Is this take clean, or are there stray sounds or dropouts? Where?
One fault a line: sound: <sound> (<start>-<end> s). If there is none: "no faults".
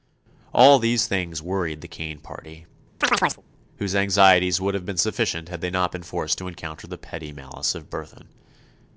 sound: chirp (3.0-3.4 s)